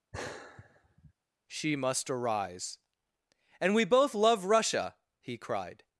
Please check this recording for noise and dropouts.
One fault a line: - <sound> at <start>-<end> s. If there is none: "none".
- sigh at 0.1-1.1 s